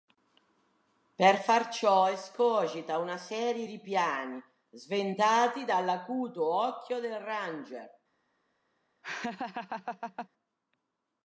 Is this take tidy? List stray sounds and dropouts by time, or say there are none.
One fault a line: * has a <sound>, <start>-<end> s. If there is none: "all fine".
* has a laugh, 9.0-10.3 s